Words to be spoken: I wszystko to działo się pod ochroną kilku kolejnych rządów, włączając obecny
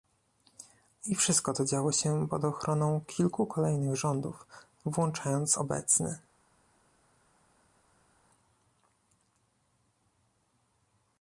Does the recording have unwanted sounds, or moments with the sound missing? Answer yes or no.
no